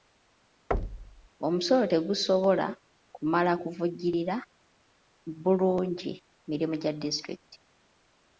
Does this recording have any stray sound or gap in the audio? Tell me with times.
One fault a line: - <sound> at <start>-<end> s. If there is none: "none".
- thud at 0.7-1.3 s